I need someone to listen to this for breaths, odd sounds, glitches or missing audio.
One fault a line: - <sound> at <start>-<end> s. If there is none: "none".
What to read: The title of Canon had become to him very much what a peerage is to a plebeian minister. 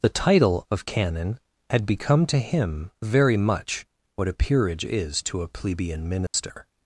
- dropout at 6.3-6.3 s